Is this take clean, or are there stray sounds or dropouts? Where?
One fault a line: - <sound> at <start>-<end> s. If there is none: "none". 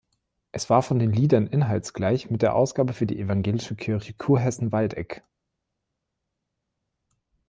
none